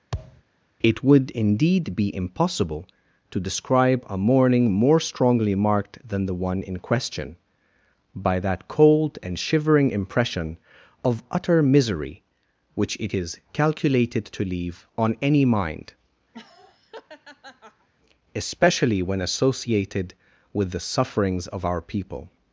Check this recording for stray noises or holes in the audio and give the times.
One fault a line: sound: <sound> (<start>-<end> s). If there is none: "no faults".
sound: thud (0.1-0.4 s)
sound: laugh (16.3-17.9 s)